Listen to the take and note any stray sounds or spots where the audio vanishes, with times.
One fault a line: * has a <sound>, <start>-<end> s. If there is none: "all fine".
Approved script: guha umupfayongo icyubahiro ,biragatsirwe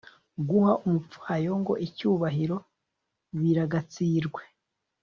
all fine